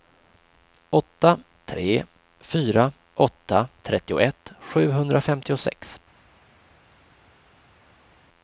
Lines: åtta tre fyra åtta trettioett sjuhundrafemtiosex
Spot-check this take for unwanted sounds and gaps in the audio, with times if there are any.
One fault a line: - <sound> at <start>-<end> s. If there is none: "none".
none